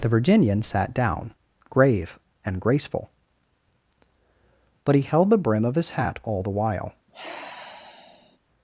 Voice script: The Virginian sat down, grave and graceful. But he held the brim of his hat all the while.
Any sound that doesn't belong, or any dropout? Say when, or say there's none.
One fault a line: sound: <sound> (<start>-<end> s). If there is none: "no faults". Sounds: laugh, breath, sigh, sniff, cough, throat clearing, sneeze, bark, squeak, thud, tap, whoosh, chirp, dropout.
sound: sigh (7.1-8.4 s)